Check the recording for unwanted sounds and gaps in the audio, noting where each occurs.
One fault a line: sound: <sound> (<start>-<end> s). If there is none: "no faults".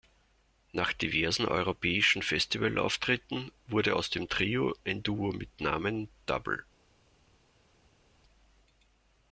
no faults